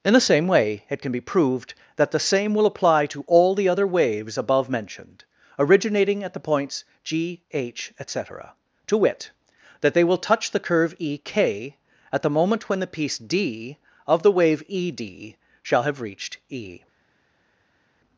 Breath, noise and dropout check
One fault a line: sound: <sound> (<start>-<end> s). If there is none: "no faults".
no faults